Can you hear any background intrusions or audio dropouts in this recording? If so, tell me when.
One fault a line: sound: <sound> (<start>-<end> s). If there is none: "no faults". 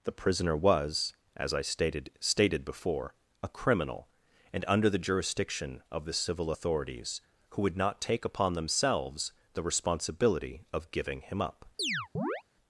sound: chirp (11.8-12.4 s)